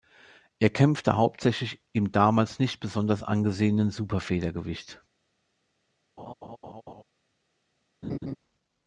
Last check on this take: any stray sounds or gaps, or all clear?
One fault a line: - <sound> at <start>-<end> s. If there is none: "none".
- laugh at 6.2-7.0 s
- laugh at 8.0-8.4 s